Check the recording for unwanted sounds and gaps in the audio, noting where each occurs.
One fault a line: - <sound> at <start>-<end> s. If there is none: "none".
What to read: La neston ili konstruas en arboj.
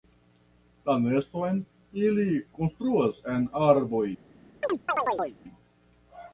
- chirp at 4.6-5.4 s